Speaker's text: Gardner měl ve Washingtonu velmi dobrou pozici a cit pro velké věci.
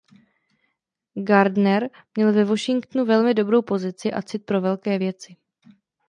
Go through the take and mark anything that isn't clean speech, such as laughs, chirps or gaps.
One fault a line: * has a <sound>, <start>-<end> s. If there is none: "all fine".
all fine